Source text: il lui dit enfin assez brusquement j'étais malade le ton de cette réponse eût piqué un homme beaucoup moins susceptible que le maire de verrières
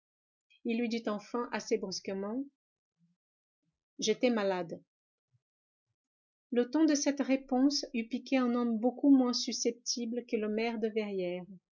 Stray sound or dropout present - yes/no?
no